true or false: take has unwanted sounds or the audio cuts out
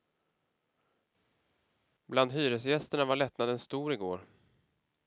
false